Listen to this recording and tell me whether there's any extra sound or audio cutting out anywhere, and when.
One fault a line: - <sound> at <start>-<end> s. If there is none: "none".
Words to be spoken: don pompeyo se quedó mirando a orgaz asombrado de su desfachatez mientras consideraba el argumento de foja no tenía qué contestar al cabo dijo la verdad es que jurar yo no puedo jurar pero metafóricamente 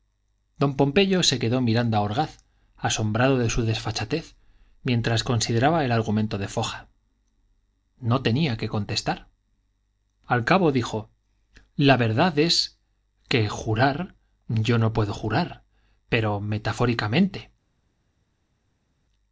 none